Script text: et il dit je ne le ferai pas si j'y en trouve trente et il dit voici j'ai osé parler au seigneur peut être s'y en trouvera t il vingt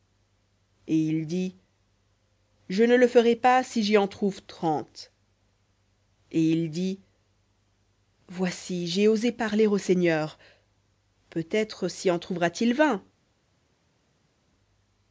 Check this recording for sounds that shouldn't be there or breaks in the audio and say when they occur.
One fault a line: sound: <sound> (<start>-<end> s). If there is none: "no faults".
no faults